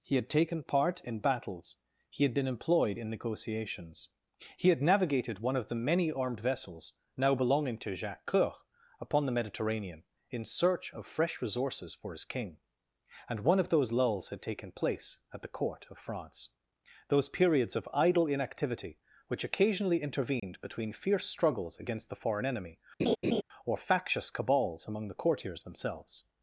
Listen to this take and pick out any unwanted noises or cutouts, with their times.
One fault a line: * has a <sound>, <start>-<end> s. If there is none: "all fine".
* has a dropout, 20.4-20.4 s
* has a laugh, 23.0-23.4 s